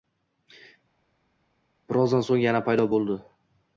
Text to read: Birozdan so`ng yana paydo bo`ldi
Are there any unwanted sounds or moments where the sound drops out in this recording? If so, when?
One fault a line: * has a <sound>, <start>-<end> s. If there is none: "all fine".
all fine